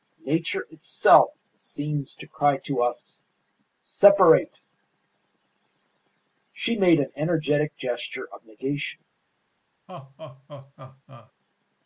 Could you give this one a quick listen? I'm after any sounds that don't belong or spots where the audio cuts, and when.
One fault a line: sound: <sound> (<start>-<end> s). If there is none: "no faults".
sound: laugh (9.9-11.3 s)